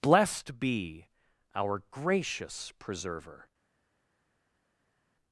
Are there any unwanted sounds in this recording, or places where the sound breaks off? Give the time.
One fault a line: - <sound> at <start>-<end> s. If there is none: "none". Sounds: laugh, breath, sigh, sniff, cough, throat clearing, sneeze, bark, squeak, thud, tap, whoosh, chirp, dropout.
none